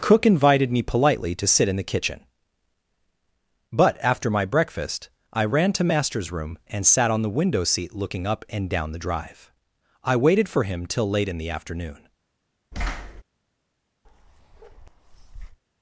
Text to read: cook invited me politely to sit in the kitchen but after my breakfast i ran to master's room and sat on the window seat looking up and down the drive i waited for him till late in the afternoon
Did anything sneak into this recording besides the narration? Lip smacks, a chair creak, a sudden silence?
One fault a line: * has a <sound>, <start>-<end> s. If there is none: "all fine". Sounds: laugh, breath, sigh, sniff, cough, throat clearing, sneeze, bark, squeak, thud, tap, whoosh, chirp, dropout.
* has a thud, 12.7-13.2 s
* has a bark, 14.0-15.6 s